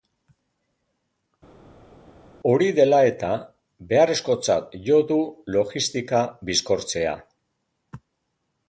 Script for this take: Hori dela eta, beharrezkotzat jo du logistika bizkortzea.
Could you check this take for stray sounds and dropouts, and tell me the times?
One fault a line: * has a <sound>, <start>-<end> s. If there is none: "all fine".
all fine